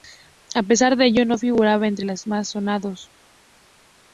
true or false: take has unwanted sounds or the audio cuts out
false